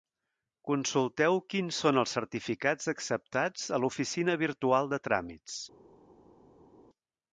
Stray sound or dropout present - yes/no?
no